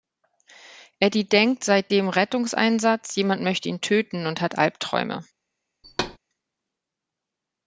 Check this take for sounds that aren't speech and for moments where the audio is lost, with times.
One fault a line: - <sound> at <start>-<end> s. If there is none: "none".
- thud at 5.8-6.2 s